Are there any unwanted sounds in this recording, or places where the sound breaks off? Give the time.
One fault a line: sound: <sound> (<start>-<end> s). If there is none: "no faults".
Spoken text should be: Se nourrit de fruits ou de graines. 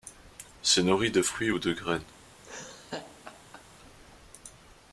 sound: laugh (2.4-3.6 s)